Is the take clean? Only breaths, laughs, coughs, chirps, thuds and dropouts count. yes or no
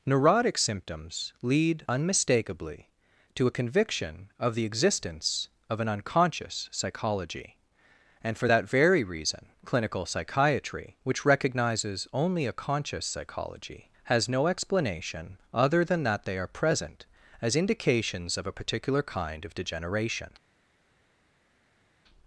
yes